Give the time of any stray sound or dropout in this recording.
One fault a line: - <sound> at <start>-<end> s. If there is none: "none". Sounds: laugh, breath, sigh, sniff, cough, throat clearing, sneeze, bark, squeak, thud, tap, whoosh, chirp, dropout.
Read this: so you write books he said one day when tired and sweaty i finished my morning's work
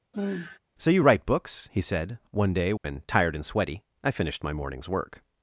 - sigh at 0.1-0.6 s
- dropout at 2.8-2.8 s